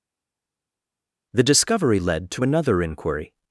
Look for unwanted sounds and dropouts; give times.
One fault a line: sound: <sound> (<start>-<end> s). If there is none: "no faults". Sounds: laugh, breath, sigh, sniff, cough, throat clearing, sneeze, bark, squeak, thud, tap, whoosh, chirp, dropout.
no faults